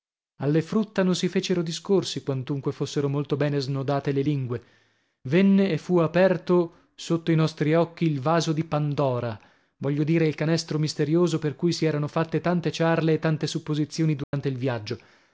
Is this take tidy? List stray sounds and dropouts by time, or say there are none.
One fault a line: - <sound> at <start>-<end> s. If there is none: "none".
- dropout at 14.2-14.3 s